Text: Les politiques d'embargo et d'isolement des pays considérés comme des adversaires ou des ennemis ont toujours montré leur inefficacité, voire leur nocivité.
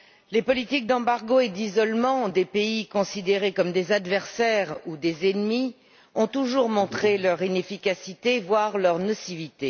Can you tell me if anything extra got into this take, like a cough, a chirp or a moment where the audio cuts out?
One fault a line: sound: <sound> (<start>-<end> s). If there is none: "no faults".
no faults